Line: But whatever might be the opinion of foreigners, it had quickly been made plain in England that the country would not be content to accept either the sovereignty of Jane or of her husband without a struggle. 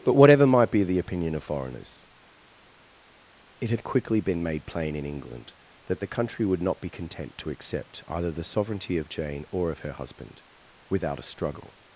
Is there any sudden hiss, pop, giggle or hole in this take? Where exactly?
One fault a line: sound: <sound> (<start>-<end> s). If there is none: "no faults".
no faults